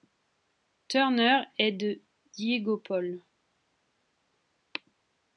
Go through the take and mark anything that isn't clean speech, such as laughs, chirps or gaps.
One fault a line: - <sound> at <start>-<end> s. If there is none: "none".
none